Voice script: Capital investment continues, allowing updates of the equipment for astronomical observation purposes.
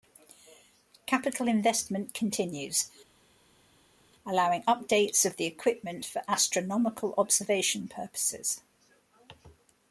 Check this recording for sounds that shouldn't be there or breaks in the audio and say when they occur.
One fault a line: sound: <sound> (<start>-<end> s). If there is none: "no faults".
no faults